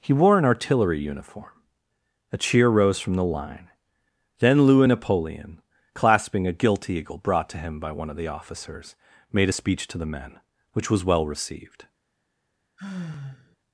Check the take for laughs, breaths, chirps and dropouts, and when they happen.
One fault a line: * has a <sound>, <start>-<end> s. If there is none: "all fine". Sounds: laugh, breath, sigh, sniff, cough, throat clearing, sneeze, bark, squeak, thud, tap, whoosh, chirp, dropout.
* has a sigh, 12.8-13.6 s